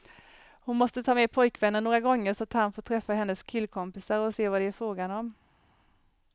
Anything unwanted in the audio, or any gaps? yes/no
no